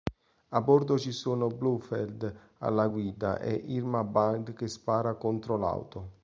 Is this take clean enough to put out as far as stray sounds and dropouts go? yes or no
yes